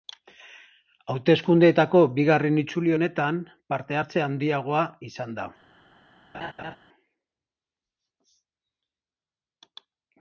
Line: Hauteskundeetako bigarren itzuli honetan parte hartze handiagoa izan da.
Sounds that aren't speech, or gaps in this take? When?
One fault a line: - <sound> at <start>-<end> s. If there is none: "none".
- laugh at 6.3-6.8 s